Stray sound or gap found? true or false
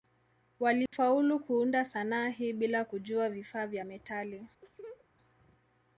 true